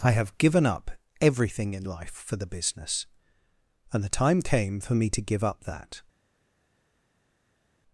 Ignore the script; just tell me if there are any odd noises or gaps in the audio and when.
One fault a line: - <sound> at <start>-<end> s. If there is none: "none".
none